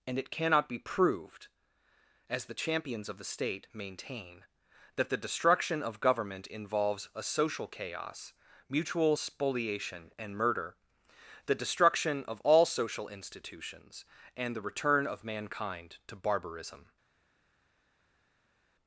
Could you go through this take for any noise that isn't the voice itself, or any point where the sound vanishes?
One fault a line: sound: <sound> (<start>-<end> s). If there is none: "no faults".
no faults